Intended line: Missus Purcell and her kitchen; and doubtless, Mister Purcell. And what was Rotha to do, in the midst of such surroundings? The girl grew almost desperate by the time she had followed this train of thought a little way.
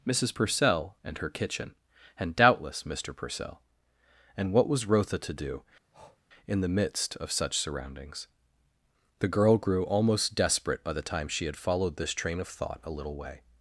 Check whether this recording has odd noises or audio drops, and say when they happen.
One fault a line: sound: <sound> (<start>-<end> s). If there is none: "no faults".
sound: breath (5.9-6.2 s)